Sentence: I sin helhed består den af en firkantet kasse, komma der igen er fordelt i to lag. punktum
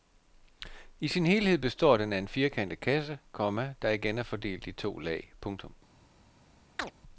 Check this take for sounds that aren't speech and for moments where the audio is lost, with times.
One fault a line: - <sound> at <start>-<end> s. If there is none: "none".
- chirp at 6.8-6.9 s